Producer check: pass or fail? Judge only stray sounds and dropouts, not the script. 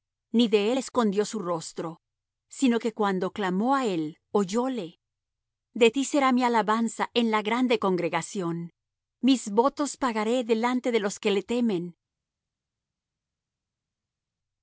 pass